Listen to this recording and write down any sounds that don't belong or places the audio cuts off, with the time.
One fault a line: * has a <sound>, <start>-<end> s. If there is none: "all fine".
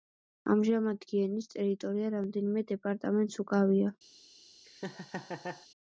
* has a laugh, 4.6-5.7 s